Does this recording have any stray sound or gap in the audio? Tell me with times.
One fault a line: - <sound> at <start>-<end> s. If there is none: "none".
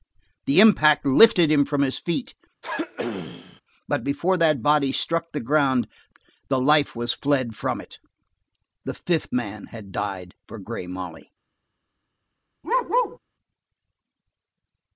- throat clearing at 2.6-3.6 s
- bark at 12.6-13.2 s